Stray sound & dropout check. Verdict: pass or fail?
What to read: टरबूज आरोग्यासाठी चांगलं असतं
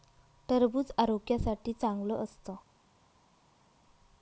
pass